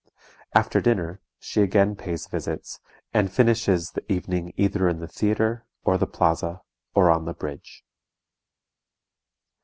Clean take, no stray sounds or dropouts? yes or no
yes